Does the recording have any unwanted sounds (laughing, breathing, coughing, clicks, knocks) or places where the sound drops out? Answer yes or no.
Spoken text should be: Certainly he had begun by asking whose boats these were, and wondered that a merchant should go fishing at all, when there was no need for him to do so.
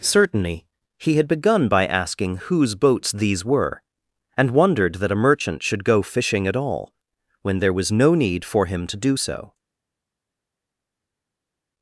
no